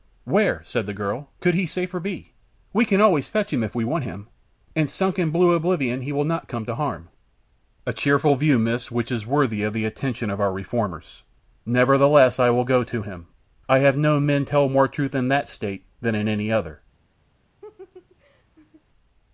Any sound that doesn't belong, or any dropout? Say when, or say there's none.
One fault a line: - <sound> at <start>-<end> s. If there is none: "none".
- laugh at 17.6-18.8 s